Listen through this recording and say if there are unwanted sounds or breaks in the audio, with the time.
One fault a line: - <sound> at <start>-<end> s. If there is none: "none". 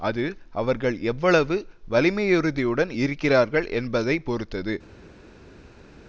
none